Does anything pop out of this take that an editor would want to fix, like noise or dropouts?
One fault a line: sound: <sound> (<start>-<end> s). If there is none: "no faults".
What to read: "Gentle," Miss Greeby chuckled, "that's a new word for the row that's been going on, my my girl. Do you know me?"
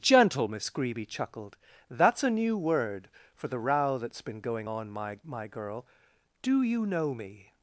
no faults